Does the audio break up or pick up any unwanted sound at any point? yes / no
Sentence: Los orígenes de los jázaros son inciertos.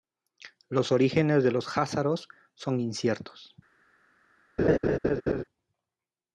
yes